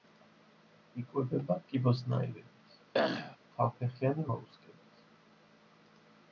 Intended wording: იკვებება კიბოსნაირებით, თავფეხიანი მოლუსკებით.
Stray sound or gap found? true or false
true